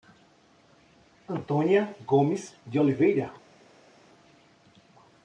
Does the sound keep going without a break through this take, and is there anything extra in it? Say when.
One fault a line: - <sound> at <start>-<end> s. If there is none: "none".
none